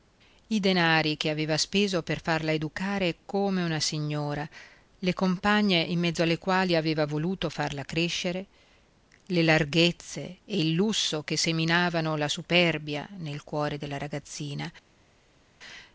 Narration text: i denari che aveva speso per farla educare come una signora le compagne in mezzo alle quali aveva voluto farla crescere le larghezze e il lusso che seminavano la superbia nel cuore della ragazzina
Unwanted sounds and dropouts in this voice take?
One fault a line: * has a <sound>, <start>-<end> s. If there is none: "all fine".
all fine